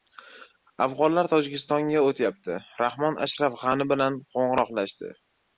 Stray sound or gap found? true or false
false